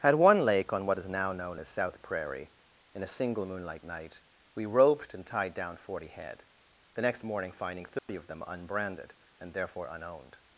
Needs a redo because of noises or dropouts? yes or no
yes